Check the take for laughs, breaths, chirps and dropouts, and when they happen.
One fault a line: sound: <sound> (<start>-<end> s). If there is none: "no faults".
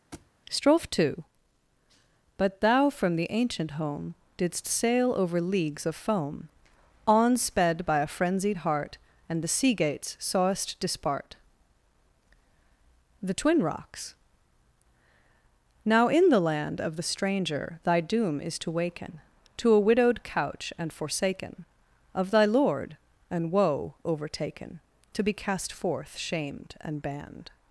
sound: thud (0.1-0.3 s)